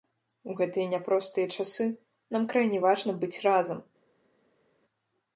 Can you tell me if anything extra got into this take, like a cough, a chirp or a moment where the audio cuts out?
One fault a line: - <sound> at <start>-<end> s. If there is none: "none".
none